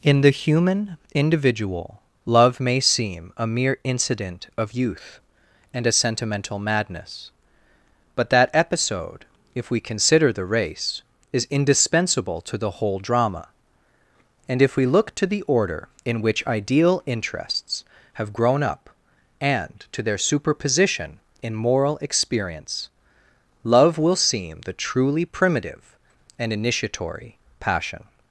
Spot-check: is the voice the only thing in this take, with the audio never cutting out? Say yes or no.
yes